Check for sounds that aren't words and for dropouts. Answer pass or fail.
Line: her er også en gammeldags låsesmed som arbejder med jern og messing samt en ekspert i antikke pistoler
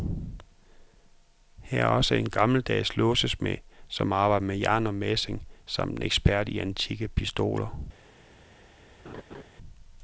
fail